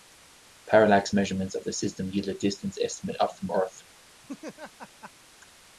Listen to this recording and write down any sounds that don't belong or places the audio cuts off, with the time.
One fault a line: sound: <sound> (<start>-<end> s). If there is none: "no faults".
sound: laugh (4.2-5.1 s)